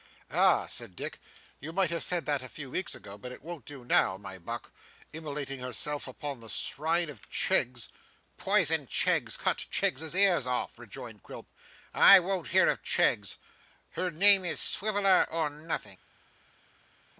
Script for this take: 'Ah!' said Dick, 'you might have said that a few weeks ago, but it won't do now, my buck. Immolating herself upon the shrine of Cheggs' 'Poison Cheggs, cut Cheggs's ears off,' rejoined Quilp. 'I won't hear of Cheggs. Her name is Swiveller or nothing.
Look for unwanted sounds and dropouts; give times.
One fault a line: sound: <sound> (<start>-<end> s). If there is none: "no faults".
no faults